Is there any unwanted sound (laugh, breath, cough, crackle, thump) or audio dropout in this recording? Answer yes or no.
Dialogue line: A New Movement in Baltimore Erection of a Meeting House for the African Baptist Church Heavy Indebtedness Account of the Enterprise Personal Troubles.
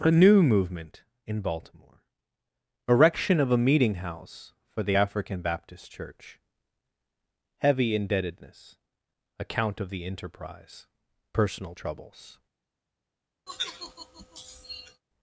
yes